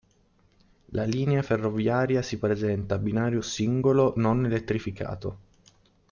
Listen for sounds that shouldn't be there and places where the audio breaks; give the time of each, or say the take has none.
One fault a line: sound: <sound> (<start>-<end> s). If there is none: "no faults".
no faults